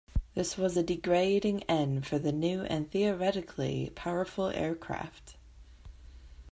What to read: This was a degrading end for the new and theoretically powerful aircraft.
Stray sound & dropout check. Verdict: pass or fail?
pass